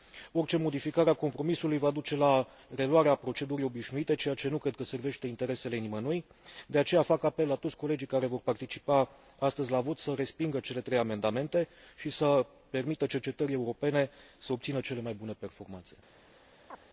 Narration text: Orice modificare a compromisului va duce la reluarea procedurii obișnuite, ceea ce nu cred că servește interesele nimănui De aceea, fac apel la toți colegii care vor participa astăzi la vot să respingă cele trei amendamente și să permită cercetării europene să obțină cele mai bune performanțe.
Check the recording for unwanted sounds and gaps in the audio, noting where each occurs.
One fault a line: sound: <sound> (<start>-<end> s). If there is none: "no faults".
sound: chirp (16.7-16.8 s)